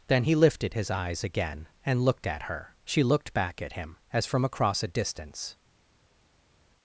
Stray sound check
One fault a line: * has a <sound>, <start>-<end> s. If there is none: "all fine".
all fine